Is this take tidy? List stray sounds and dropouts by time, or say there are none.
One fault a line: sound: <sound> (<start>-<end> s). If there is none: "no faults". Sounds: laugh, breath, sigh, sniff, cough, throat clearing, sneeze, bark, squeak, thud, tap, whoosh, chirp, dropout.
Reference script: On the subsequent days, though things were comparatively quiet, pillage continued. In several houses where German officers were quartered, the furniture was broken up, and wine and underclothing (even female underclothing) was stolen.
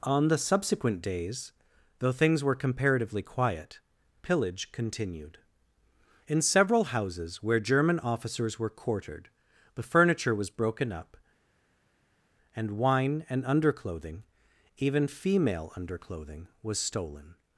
no faults